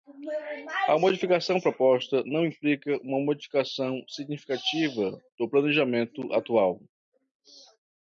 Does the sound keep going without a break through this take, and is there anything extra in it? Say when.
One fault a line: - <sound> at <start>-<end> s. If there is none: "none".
none